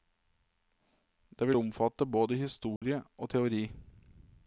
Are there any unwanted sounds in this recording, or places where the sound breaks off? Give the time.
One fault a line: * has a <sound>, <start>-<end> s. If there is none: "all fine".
* has a dropout, 2.8-2.8 s